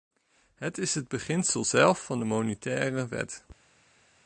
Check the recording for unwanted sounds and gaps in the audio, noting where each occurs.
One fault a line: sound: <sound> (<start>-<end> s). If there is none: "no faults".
no faults